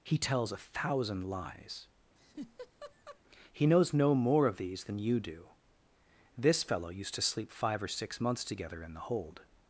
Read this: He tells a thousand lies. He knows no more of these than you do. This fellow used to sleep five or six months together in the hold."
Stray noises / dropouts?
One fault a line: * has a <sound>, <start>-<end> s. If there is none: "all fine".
* has a laugh, 2.2-3.2 s